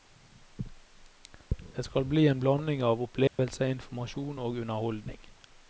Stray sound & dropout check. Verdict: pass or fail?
fail